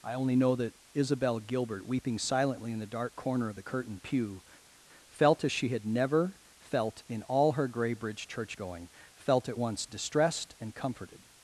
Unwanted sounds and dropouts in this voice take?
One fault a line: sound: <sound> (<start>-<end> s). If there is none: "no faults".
no faults